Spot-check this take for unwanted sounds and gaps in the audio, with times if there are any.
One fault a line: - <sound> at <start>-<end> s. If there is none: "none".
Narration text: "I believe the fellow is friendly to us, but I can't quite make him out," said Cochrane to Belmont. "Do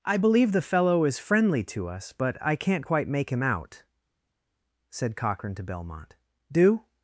none